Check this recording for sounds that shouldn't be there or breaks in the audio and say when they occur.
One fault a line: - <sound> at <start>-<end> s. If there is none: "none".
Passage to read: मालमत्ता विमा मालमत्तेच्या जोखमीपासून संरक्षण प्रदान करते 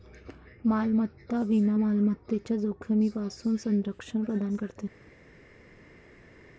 none